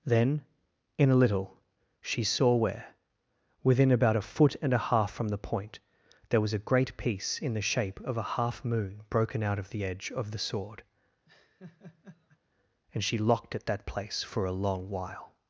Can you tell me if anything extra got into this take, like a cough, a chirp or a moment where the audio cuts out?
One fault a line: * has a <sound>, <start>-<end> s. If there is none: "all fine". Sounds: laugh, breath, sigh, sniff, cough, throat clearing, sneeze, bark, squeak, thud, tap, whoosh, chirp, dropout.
* has a laugh, 11.3-12.4 s